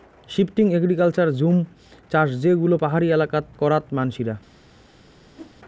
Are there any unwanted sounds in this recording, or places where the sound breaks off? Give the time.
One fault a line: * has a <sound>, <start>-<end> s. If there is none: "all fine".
* has a whoosh, 5.4-5.6 s